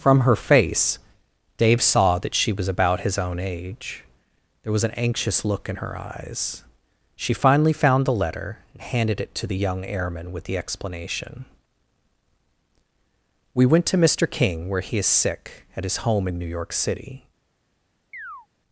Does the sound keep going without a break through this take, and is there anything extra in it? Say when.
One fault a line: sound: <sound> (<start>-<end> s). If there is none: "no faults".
sound: chirp (18.1-18.5 s)